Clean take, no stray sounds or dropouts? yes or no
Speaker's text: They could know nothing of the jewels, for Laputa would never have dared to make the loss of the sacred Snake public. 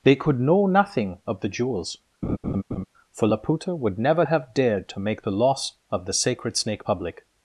no